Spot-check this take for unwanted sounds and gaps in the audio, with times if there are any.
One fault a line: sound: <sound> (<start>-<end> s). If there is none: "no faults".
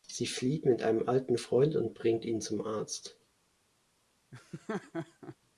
sound: laugh (4.3-5.4 s)